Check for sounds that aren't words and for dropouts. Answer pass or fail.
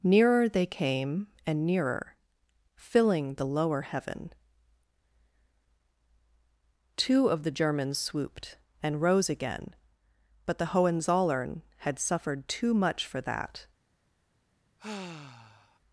fail